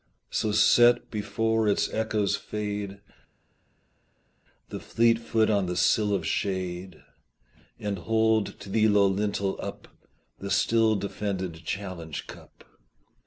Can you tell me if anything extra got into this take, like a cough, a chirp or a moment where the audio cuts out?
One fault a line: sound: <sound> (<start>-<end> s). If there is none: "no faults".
no faults